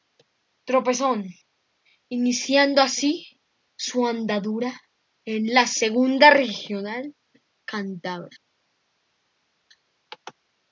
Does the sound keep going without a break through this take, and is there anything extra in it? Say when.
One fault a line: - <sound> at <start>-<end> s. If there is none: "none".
none